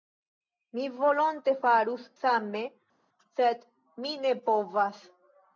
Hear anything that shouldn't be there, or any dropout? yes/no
no